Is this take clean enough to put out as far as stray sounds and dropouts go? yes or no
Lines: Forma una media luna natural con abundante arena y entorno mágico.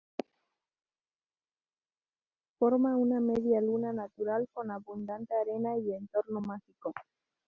yes